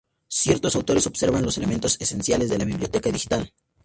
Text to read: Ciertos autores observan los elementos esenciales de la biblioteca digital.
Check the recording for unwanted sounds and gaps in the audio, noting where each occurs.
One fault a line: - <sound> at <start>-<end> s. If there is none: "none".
none